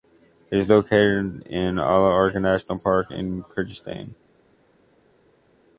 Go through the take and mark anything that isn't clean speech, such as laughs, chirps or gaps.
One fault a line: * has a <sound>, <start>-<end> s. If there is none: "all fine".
all fine